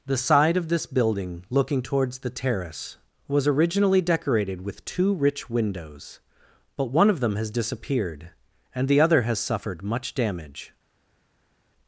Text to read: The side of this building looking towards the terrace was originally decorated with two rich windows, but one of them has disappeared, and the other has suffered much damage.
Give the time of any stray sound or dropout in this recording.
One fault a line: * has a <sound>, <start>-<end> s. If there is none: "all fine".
all fine